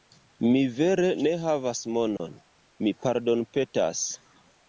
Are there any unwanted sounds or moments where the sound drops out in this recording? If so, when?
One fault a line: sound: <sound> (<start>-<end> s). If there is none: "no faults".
sound: dropout (2.2-2.2 s)